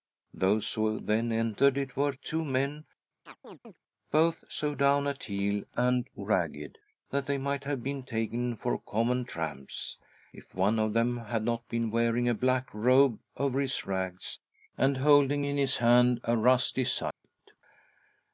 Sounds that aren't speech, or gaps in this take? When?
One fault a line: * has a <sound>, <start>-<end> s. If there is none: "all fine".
* has a chirp, 3.3-3.8 s
* has a dropout, 17.1-17.2 s